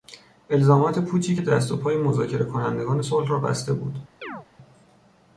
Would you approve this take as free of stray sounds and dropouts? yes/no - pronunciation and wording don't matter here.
no